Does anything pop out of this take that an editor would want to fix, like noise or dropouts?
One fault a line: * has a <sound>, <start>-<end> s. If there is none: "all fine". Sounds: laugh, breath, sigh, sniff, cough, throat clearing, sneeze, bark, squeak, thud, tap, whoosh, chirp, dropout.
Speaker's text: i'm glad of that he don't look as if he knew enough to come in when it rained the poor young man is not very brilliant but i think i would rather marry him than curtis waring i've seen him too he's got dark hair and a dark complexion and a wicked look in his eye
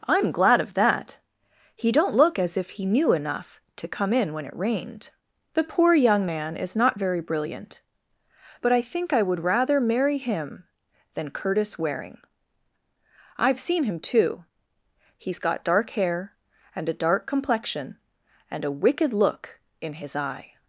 all fine